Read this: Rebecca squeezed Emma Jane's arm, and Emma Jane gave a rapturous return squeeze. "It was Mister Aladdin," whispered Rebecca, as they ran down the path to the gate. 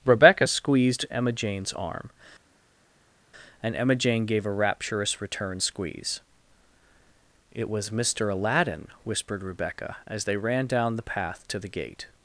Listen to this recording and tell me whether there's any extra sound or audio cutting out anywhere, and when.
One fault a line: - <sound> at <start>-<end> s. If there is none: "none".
none